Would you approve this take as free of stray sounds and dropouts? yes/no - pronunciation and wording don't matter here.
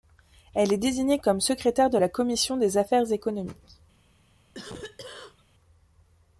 no